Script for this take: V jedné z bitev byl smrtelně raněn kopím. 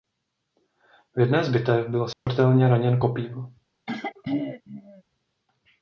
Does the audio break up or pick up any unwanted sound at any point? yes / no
yes